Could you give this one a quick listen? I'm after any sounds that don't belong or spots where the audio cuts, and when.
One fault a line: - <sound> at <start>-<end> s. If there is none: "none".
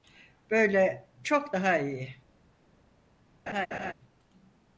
- laugh at 3.5-3.9 s